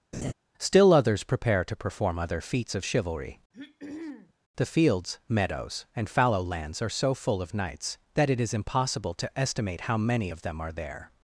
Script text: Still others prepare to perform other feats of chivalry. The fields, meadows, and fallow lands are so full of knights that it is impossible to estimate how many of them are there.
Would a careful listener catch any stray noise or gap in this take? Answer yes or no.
yes